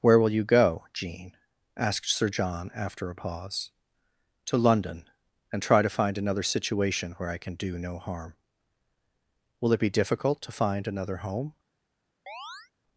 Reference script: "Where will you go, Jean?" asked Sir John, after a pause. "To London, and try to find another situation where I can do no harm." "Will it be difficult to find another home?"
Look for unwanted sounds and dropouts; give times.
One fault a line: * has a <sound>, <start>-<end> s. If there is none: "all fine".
* has a chirp, 12.3-12.7 s